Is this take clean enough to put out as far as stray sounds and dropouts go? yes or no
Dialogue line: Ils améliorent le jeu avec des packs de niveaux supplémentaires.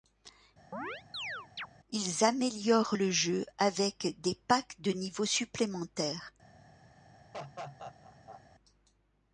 no